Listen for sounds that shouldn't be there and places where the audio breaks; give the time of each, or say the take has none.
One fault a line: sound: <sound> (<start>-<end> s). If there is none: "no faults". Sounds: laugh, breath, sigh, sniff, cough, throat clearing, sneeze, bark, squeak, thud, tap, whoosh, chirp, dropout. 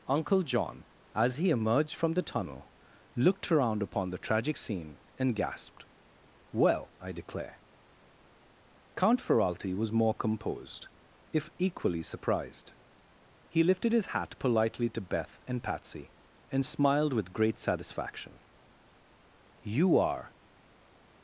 no faults